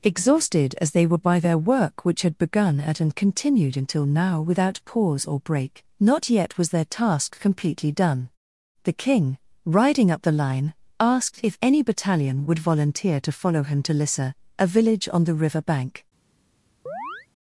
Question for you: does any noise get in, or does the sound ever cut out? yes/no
yes